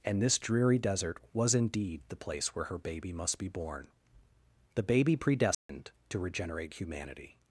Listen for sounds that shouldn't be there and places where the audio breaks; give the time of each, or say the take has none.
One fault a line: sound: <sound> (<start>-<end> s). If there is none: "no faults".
sound: dropout (5.5-5.7 s)